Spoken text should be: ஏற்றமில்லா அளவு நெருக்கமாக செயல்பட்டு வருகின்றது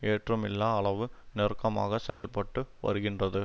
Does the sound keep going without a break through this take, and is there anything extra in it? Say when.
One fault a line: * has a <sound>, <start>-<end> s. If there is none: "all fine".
* has a dropout, 2.1-2.2 s